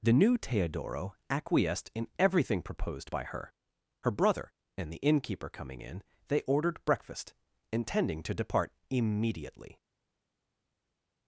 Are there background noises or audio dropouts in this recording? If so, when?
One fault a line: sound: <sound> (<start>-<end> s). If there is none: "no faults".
no faults